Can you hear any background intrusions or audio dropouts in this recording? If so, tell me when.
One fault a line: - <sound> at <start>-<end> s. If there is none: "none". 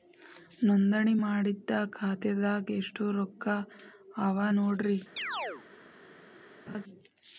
- chirp at 5.2-5.6 s
- laugh at 6.7-6.8 s